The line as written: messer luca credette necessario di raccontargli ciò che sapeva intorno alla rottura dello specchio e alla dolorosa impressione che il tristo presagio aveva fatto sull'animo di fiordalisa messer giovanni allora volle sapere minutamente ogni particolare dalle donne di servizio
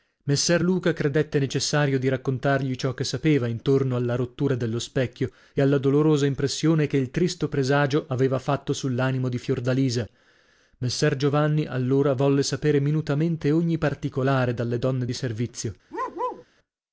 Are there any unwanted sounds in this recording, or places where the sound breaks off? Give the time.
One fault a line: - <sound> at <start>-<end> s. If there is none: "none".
- bark at 15.9-16.5 s